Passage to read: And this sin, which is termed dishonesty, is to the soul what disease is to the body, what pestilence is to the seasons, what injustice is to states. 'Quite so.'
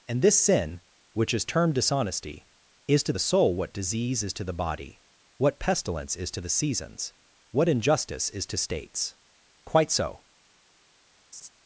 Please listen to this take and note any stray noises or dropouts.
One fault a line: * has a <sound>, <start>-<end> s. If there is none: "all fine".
* has a laugh, 11.3-11.5 s